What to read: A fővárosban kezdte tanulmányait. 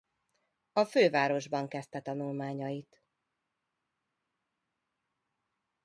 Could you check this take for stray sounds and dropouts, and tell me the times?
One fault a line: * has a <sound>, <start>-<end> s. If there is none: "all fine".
all fine